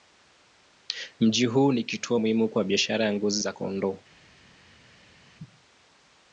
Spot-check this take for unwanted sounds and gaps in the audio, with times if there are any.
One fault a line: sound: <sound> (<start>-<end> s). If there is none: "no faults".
no faults